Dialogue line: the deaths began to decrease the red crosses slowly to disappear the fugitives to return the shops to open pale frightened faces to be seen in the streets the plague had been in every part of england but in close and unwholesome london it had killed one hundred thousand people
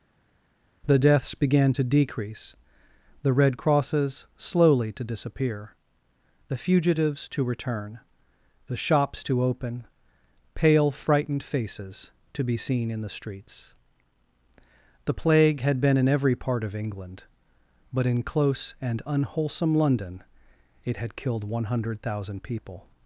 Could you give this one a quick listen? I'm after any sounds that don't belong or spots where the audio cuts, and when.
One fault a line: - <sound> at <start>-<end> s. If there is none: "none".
none